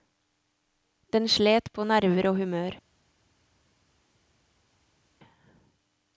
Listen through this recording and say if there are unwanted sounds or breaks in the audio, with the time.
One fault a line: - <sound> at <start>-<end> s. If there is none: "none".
none